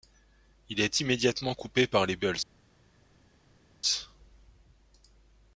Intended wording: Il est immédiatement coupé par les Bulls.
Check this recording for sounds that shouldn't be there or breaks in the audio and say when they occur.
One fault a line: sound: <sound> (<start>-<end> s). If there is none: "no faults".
no faults